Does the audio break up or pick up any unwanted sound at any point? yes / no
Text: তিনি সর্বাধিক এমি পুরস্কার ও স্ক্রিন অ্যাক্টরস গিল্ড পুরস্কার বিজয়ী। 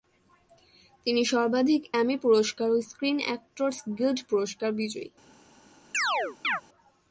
yes